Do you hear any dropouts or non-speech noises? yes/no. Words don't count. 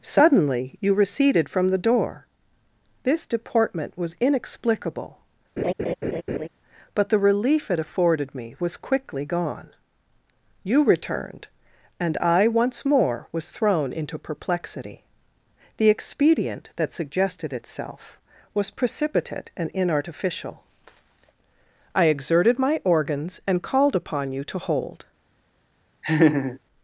yes